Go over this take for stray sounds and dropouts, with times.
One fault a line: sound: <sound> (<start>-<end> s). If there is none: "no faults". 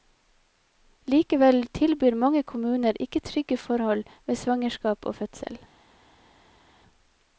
no faults